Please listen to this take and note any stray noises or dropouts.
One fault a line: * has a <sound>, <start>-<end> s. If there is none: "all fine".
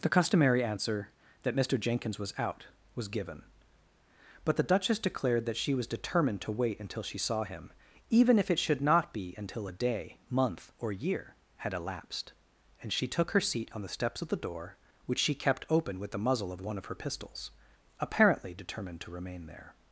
all fine